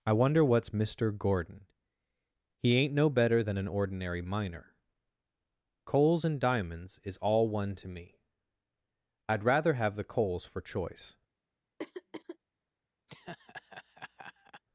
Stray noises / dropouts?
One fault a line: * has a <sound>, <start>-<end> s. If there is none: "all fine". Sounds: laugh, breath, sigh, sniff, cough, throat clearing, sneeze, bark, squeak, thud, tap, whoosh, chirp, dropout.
* has a throat clearing, 11.8-12.4 s
* has a laugh, 13.1-14.6 s